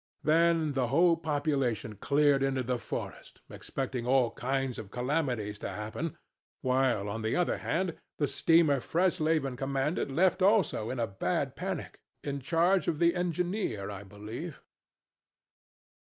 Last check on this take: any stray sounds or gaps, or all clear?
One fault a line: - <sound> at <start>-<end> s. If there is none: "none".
none